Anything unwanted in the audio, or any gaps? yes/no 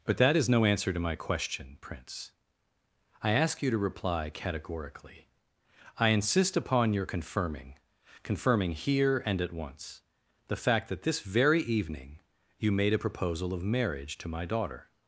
no